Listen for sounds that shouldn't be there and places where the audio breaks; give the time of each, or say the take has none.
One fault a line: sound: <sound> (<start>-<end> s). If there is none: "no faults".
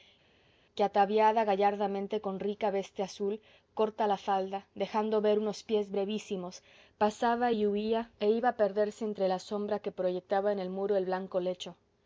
no faults